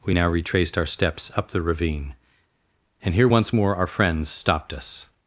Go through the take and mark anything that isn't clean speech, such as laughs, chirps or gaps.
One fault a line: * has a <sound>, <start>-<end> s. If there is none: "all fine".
all fine